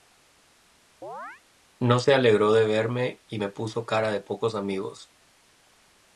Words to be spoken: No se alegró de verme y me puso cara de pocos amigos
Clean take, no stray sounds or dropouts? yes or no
no